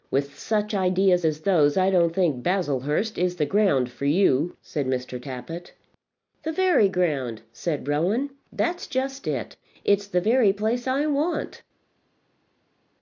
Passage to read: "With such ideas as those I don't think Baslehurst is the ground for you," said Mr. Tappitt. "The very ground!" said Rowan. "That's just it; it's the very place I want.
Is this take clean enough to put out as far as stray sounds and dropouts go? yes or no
yes